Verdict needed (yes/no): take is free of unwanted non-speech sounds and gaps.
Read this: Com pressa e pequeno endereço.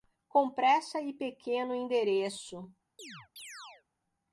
no